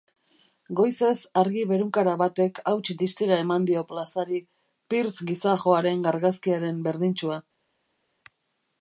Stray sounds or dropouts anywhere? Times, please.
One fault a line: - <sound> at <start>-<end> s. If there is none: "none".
none